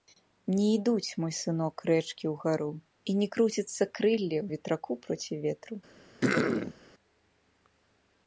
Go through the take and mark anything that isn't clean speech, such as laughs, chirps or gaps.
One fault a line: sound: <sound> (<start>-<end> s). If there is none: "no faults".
sound: throat clearing (6.2-6.7 s)